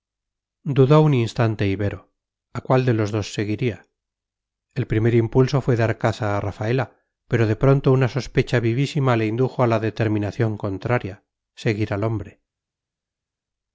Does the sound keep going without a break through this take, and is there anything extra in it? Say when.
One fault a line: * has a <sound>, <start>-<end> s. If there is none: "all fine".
all fine